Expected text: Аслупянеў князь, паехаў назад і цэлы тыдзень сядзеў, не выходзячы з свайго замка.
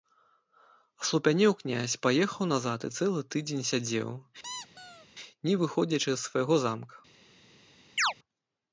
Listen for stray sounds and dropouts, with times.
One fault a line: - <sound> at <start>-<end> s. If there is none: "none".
- squeak at 4.4-5.1 s
- chirp at 8.0-8.1 s